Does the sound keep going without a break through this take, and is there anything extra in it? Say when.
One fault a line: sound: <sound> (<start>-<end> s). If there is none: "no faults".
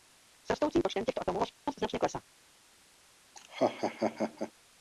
sound: dropout (1.5-1.7 s)
sound: laugh (3.3-4.5 s)